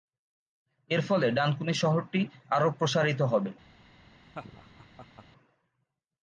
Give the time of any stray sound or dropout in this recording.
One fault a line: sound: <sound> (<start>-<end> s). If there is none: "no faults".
sound: laugh (4.2-5.3 s)